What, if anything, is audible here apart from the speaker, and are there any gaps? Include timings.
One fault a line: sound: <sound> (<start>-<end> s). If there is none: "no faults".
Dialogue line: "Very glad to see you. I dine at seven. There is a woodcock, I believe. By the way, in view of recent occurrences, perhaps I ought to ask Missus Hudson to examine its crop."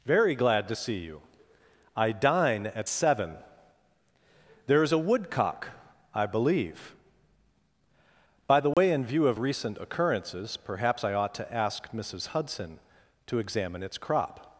sound: dropout (8.7-8.8 s)